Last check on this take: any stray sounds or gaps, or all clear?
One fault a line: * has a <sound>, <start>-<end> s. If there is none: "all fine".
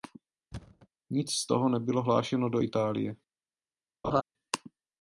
* has a thud, 0.5-0.9 s
* has a laugh, 4.0-4.2 s